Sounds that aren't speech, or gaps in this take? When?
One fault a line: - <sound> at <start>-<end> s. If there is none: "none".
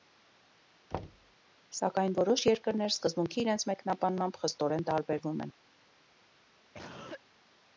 - thud at 0.9-1.4 s
- cough at 6.7-7.2 s